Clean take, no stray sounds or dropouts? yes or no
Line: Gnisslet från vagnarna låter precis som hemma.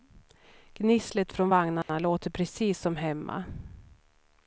no